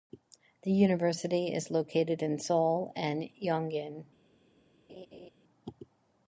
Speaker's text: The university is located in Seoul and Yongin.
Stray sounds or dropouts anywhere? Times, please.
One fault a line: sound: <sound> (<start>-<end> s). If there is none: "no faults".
sound: laugh (4.9-5.3 s)